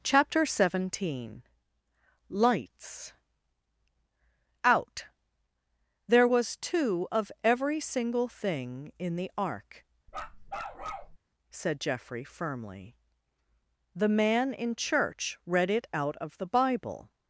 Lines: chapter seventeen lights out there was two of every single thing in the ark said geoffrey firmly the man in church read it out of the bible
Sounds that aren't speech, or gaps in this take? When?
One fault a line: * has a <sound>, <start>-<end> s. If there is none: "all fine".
* has a bark, 10.1-11.2 s